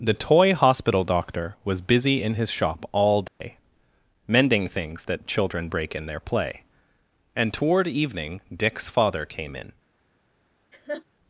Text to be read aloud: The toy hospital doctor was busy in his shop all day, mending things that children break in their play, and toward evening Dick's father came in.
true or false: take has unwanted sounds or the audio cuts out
true